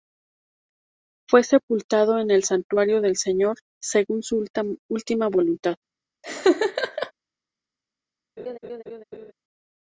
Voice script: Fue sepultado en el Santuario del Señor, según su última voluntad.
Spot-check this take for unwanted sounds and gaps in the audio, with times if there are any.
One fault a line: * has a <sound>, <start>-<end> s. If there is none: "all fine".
* has a laugh, 6.2-7.1 s
* has a laugh, 8.4-9.3 s